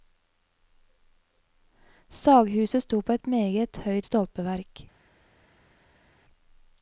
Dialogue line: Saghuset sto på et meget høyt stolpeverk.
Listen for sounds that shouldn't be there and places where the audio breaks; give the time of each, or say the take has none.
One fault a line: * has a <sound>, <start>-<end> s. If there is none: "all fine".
all fine